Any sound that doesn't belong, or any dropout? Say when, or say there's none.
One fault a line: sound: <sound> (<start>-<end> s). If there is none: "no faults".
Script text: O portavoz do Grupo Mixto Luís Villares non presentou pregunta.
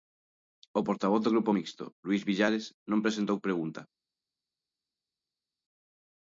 no faults